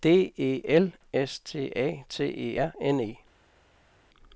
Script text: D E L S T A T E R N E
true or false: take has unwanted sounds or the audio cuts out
false